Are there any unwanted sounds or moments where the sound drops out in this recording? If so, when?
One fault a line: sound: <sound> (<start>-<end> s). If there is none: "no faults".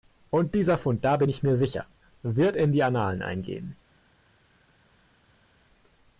no faults